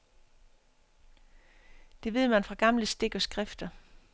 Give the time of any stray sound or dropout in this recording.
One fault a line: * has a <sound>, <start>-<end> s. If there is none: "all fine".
all fine